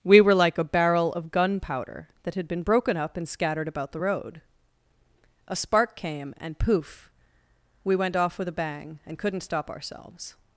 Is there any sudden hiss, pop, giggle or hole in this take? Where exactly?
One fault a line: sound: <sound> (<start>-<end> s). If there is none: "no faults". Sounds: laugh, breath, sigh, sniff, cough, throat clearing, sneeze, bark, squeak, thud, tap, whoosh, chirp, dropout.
no faults